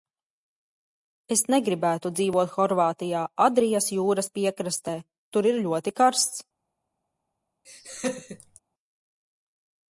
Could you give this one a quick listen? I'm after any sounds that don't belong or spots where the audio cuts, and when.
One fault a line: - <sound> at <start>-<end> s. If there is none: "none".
- laugh at 7.6-8.6 s